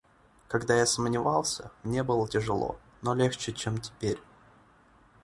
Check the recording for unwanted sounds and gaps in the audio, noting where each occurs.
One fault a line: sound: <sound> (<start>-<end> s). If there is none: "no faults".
no faults